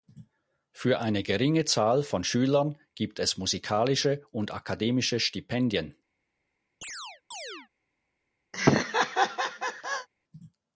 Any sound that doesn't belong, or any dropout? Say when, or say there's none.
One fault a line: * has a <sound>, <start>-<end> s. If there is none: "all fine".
* has a chirp, 6.8-7.7 s
* has a laugh, 8.5-10.1 s